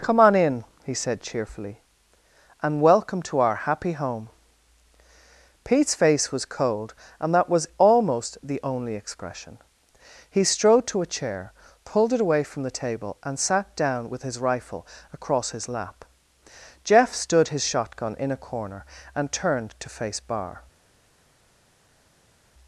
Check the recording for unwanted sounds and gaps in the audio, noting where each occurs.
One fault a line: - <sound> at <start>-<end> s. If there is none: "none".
none